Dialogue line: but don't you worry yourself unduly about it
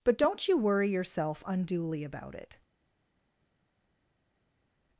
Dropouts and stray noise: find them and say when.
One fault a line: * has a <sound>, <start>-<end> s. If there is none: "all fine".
all fine